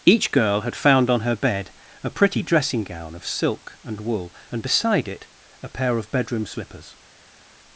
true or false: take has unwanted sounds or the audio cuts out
false